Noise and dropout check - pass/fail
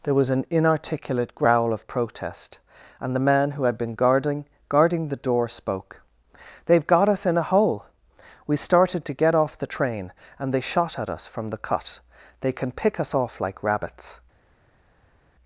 pass